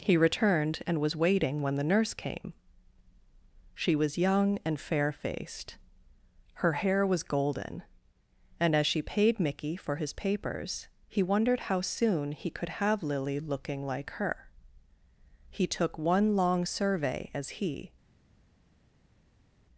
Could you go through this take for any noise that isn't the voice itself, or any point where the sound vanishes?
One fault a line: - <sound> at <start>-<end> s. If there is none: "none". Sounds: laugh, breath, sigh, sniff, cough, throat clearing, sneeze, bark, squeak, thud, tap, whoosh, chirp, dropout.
none